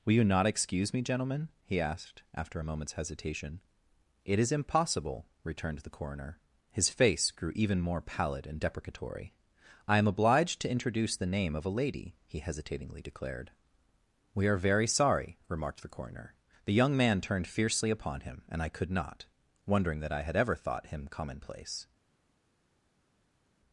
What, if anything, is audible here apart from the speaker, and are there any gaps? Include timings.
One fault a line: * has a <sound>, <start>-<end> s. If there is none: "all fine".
all fine